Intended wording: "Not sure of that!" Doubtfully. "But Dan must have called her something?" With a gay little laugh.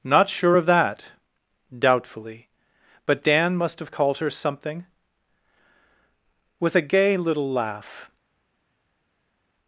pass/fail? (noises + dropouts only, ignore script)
pass